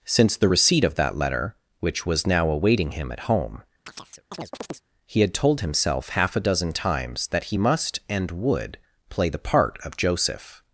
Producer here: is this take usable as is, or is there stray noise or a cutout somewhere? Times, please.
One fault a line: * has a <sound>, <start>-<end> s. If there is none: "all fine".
* has a chirp, 3.9-4.8 s